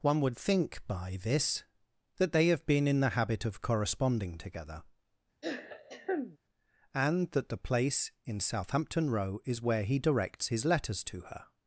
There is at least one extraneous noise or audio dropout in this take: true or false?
true